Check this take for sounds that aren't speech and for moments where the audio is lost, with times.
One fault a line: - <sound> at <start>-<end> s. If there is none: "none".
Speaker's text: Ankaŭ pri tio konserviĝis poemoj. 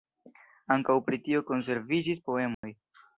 - dropout at 2.5-2.6 s